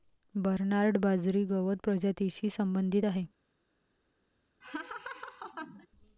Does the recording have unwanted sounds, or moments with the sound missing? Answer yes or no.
yes